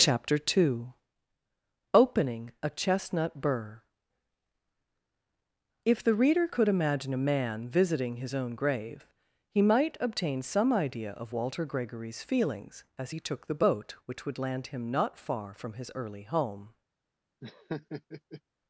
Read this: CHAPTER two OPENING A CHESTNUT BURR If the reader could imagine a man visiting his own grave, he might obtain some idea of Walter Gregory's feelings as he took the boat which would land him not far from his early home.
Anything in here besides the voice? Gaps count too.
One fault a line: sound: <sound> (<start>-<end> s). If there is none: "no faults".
sound: laugh (17.4-18.4 s)